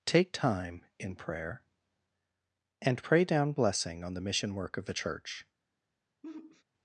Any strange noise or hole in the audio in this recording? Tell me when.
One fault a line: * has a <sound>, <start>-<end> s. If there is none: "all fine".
* has a sigh, 6.2-6.6 s